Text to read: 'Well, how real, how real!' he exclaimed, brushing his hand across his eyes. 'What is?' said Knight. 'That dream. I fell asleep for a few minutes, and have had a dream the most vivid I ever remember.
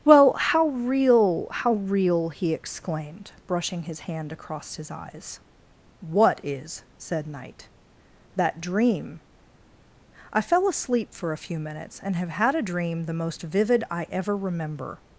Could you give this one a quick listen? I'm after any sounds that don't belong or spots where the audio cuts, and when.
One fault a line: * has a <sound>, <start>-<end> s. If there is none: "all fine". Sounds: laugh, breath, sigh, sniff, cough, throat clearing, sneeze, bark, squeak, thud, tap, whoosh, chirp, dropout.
all fine